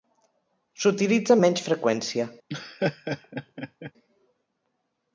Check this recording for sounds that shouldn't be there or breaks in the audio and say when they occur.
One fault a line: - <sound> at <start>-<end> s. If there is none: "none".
- laugh at 2.5-3.9 s